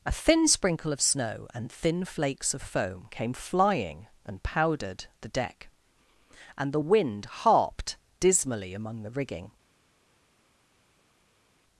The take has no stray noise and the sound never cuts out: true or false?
true